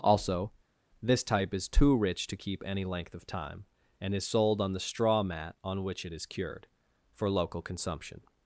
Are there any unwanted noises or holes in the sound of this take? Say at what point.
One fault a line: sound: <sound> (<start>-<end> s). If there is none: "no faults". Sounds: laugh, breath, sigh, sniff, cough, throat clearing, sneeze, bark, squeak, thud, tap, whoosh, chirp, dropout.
no faults